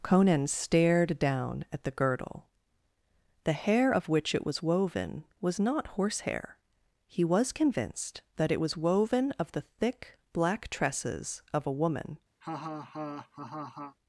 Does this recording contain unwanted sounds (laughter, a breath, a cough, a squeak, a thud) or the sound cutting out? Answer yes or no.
yes